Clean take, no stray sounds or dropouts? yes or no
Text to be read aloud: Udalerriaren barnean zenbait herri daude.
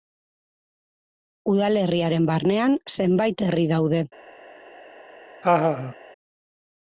no